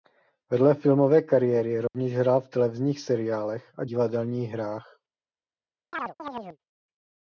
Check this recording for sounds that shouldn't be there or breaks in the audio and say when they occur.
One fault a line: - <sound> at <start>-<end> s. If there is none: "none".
- dropout at 1.9-1.9 s
- chirp at 5.9-6.6 s